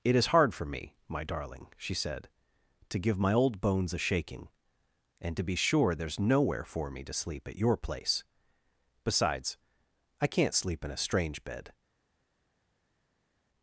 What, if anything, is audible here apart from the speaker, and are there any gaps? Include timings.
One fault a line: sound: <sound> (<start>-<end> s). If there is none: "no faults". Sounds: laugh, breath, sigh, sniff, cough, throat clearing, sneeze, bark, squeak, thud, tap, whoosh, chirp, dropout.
no faults